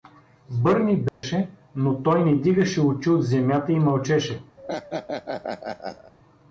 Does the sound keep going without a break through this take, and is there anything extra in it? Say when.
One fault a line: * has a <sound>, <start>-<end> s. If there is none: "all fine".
* has a dropout, 1.1-1.2 s
* has a laugh, 4.6-6.1 s